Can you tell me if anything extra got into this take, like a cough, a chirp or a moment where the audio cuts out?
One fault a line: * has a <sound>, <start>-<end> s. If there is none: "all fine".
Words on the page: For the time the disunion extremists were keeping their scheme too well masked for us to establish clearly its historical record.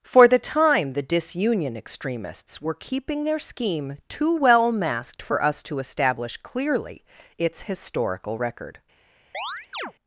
* has a chirp, 9.3-9.9 s